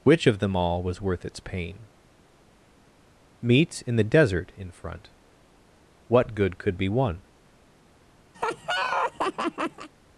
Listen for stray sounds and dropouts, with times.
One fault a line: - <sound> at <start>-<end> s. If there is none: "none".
- laugh at 8.3-9.9 s